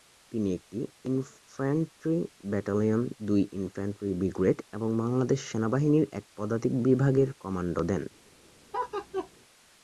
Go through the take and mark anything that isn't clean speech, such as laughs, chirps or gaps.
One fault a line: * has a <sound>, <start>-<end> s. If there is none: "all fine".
* has a laugh, 8.7-9.3 s